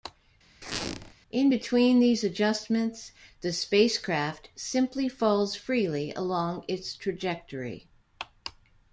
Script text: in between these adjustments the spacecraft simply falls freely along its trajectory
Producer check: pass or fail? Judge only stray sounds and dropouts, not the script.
fail